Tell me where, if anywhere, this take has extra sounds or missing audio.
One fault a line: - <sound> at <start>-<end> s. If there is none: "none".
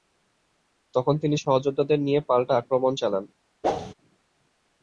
- whoosh at 3.6-3.9 s